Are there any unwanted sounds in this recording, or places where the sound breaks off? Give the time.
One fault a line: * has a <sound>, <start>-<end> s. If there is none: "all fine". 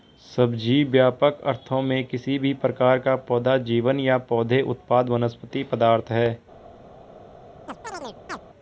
* has a chirp, 7.7-8.4 s